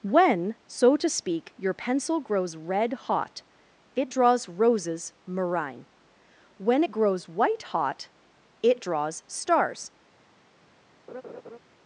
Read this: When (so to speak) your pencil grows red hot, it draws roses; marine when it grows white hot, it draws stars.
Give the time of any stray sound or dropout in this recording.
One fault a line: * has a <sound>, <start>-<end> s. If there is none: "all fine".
* has a laugh, 11.1-11.6 s